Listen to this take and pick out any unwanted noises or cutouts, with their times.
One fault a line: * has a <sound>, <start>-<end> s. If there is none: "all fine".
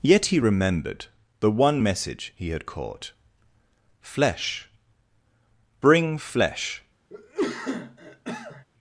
* has a cough, 7.1-8.6 s